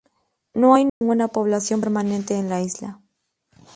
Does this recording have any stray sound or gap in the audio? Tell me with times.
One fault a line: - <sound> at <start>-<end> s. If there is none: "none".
- dropout at 0.9-1.0 s